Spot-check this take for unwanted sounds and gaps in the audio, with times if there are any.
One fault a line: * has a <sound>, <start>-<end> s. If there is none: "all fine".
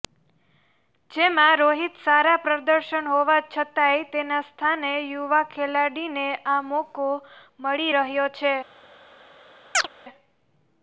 * has a chirp, 9.7-9.9 s